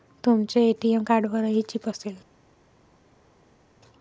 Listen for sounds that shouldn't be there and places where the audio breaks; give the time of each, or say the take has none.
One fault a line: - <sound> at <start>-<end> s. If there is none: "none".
none